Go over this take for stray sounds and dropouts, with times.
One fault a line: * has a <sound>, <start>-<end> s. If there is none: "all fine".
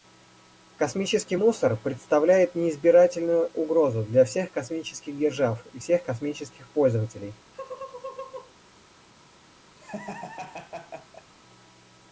* has a laugh, 7.5-8.5 s
* has a laugh, 9.8-11.3 s